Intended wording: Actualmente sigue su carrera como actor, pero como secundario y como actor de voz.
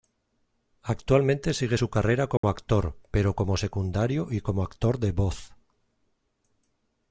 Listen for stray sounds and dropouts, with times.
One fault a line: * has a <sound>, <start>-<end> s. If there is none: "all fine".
* has a dropout, 2.4-2.4 s